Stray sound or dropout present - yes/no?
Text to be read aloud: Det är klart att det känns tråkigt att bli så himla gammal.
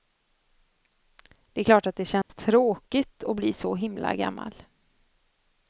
yes